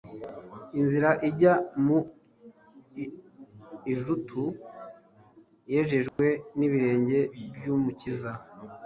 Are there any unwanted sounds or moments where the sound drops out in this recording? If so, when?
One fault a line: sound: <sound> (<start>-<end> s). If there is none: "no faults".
sound: dropout (6.1-6.2 s)